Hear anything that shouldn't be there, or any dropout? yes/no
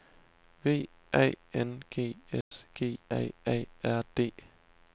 yes